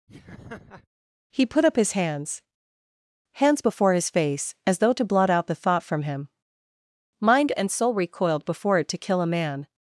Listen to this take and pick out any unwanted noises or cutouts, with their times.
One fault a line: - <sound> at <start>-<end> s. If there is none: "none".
- laugh at 0.1-0.9 s